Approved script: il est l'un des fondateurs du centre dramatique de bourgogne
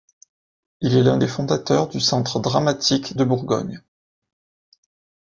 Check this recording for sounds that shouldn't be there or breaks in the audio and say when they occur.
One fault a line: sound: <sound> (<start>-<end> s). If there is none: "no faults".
no faults